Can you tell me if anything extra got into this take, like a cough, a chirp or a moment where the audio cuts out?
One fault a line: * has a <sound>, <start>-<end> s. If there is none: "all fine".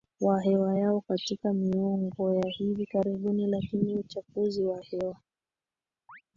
* has a chirp, 6.1-6.2 s